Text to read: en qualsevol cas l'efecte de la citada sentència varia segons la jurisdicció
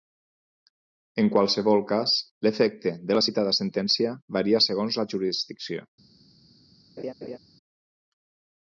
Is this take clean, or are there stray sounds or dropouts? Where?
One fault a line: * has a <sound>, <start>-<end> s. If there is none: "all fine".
* has a laugh, 7.0-7.4 s